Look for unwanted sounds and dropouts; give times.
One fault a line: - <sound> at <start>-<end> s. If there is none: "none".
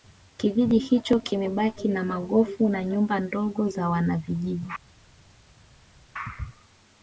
none